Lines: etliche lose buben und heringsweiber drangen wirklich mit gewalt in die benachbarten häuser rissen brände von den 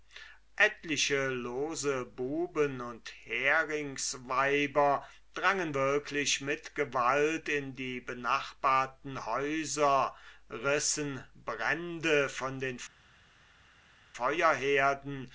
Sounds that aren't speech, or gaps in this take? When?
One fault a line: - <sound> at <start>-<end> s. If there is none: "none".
none